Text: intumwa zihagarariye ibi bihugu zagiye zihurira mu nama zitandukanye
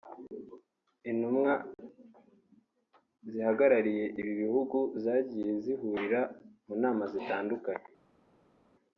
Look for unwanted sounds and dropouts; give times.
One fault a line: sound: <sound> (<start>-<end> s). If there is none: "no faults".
no faults